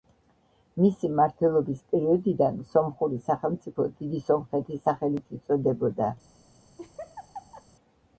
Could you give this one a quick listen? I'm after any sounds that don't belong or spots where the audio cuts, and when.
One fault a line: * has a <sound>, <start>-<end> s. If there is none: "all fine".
* has a laugh, 6.8-7.7 s